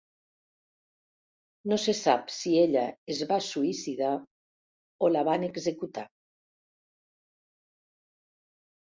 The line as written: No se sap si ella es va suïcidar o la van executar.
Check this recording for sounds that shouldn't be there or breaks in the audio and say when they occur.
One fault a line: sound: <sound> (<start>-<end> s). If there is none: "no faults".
no faults